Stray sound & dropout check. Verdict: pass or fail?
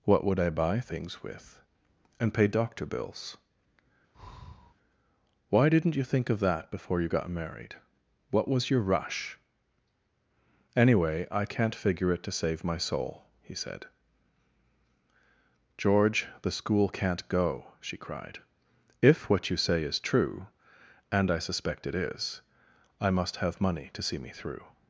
fail